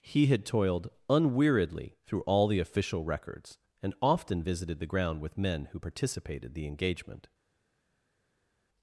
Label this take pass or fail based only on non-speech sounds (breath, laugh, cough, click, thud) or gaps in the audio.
pass